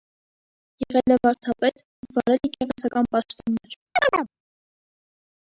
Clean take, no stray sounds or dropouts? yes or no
no